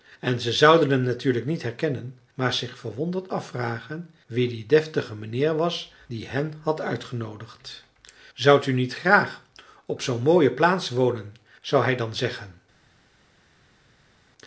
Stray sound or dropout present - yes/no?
no